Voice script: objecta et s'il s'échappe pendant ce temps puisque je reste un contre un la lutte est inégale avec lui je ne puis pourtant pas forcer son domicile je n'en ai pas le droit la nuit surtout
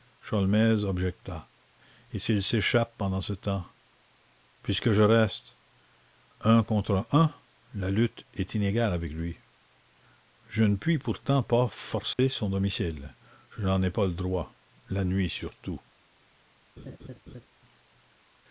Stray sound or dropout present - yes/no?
yes